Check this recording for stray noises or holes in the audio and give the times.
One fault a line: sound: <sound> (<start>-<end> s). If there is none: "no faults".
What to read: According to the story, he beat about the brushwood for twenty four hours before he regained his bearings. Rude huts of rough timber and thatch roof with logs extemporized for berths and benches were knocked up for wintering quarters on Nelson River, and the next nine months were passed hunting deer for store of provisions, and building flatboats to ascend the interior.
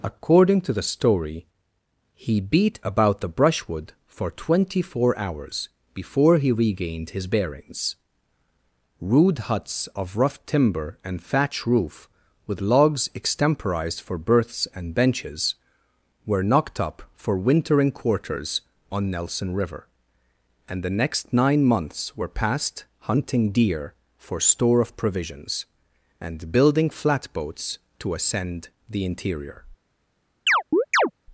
sound: chirp (30.5-31.1 s)